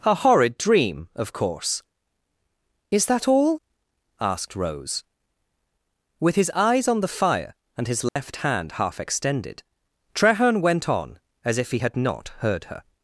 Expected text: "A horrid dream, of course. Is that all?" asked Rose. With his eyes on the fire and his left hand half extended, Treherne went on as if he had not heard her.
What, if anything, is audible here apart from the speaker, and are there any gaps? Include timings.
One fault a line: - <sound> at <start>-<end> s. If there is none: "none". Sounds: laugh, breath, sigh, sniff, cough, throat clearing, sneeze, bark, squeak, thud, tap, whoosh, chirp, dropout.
- dropout at 8.1-8.2 s